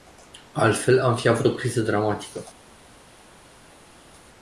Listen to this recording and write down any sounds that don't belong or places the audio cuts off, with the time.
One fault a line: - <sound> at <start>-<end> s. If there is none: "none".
none